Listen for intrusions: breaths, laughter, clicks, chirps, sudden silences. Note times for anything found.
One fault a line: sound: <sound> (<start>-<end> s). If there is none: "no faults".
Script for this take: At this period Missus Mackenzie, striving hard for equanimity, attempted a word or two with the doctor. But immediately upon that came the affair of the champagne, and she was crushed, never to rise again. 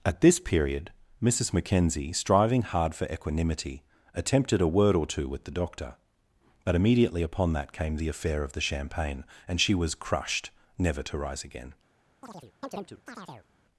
sound: chirp (12.2-13.5 s)